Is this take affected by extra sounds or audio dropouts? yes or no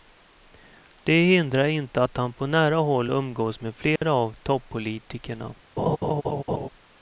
yes